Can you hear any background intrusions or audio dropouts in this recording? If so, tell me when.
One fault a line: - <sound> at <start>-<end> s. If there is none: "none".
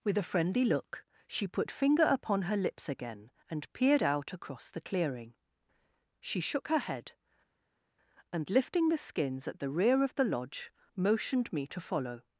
none